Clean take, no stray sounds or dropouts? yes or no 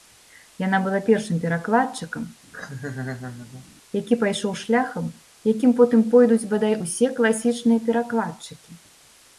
no